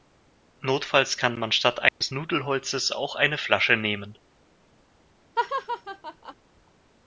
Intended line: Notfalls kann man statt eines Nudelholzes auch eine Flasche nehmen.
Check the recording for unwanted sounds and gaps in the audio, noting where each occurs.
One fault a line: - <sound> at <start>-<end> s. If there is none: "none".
- dropout at 1.9-2.0 s
- laugh at 5.4-6.3 s